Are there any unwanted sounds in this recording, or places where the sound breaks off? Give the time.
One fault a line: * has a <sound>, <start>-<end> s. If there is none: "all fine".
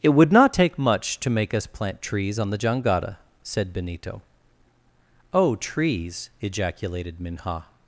all fine